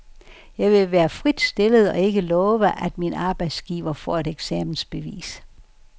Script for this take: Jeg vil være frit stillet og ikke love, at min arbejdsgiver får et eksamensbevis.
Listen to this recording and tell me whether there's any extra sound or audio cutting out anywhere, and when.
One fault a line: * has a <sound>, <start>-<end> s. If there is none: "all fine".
all fine